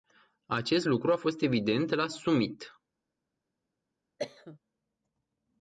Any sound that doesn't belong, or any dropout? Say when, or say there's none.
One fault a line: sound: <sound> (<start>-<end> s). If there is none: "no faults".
sound: cough (4.2-4.6 s)